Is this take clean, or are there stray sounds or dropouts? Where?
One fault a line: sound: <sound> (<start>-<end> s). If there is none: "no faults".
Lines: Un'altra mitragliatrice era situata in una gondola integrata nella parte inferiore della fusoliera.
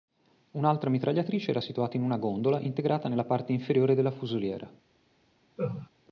sound: laugh (5.6-5.9 s)